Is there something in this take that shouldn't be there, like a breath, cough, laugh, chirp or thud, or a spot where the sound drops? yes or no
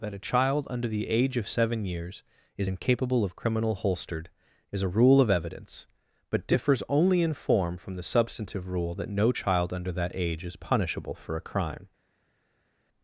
no